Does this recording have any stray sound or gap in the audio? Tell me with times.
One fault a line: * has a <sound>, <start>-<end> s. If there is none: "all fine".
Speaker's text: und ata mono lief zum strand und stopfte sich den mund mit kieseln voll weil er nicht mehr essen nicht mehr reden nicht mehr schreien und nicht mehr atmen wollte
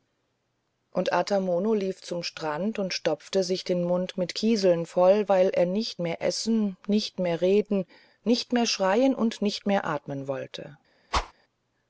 * has a whoosh, 11.1-11.3 s